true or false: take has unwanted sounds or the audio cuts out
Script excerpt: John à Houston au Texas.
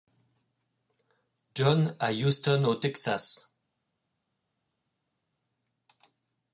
false